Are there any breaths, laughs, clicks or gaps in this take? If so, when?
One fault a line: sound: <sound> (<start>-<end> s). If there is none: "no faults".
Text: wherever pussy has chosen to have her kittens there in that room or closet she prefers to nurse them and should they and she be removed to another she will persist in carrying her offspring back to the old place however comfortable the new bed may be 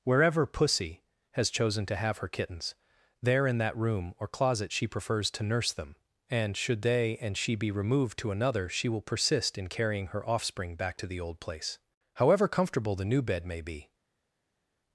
no faults